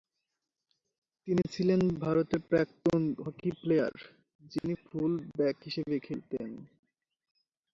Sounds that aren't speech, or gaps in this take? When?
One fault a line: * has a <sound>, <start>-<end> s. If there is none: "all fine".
* has a dropout, 4.6-4.6 s